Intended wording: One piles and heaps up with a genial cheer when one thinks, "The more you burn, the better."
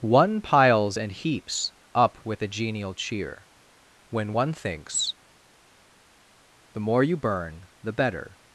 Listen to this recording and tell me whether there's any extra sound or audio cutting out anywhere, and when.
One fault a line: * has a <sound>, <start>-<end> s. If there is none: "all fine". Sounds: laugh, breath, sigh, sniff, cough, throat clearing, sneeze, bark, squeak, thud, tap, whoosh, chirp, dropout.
all fine